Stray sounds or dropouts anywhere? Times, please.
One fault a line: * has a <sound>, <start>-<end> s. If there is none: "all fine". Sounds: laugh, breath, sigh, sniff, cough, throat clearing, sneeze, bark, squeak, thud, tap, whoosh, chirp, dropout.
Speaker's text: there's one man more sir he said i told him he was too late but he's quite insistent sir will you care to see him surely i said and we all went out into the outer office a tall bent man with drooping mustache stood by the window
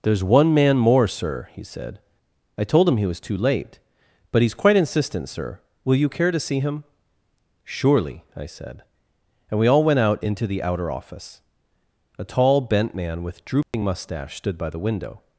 * has a dropout, 13.6-13.7 s